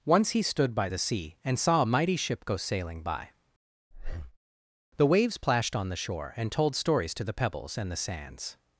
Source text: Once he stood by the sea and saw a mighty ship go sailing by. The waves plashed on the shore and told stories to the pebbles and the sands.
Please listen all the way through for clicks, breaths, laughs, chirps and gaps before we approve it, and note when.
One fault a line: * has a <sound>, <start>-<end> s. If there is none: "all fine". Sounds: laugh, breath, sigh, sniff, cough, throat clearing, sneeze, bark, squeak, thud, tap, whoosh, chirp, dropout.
* has a breath, 3.9-4.4 s